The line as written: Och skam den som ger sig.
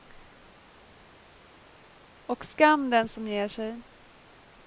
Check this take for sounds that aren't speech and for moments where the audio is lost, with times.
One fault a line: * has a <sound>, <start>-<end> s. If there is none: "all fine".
all fine